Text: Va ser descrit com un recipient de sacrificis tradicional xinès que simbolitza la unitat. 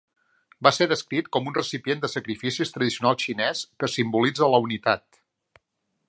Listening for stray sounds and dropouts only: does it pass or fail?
pass